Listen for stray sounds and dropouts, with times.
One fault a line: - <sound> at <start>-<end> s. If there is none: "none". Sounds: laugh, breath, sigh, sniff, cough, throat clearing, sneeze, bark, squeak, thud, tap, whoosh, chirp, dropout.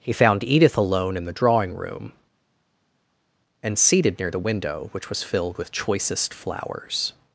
none